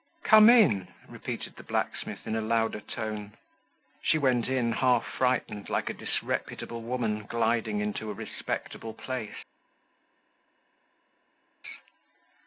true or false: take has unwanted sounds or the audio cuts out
false